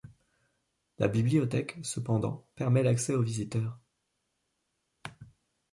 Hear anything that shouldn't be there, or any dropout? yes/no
no